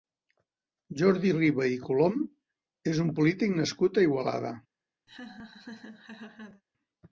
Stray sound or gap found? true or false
true